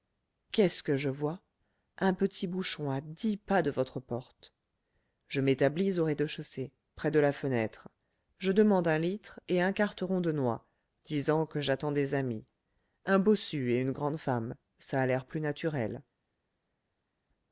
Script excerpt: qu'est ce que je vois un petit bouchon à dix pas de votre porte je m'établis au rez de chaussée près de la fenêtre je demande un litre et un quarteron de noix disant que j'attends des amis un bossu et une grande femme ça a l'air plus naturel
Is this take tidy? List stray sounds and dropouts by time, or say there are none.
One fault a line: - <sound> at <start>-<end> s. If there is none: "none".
none